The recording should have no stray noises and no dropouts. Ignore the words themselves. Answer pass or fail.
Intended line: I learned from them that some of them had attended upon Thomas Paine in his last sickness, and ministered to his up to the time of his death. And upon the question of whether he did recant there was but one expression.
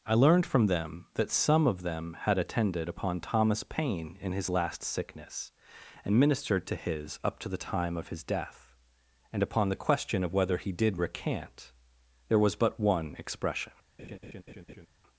fail